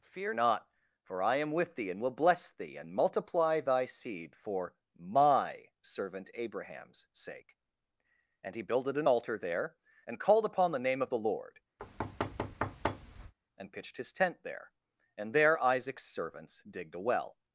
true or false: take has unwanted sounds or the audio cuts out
true